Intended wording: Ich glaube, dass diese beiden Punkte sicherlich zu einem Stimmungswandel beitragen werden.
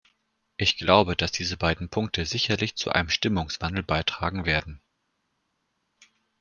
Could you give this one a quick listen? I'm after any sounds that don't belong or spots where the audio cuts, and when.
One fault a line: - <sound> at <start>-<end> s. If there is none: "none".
none